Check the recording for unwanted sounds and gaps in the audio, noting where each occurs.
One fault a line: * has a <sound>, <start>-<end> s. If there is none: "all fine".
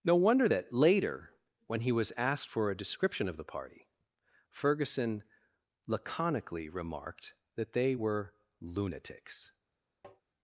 * has a tap, 10.0-10.2 s